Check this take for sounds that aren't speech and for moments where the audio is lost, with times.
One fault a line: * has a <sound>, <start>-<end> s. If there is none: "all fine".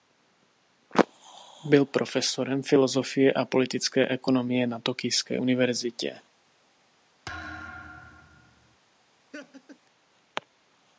* has a thud, 7.3-8.8 s
* has a laugh, 9.3-9.8 s